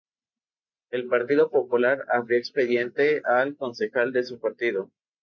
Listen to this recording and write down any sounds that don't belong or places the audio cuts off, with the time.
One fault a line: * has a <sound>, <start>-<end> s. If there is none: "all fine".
all fine